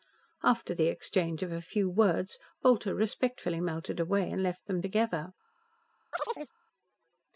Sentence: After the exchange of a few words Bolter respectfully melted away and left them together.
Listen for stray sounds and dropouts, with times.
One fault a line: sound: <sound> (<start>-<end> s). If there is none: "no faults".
sound: chirp (6.1-6.5 s)